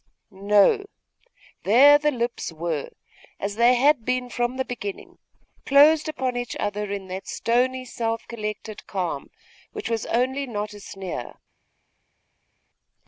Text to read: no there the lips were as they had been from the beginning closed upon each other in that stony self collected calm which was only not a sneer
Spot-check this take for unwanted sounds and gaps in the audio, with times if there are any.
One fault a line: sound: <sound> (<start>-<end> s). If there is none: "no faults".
no faults